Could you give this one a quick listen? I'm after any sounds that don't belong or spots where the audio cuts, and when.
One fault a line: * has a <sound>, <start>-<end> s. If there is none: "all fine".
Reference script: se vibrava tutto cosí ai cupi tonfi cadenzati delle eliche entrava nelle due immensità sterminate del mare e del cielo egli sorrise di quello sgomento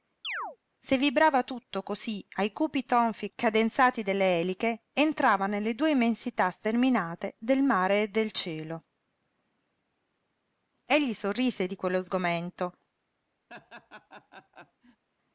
* has a chirp, 0.2-0.6 s
* has a laugh, 13.5-15.0 s